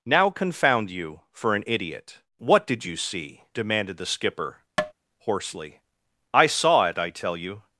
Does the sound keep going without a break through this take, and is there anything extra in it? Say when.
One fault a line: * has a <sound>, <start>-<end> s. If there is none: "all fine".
* has a tap, 4.8-4.9 s